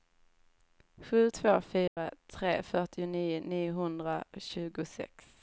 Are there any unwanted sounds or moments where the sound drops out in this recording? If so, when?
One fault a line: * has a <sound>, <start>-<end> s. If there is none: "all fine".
* has a dropout, 1.9-2.0 s